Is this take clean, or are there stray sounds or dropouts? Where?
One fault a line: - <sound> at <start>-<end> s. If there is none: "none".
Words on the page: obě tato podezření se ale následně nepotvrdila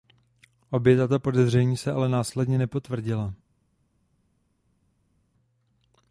none